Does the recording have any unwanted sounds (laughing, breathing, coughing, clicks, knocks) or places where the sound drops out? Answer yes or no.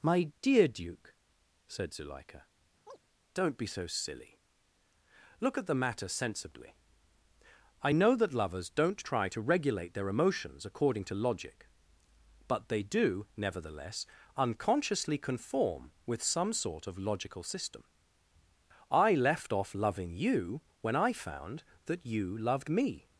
yes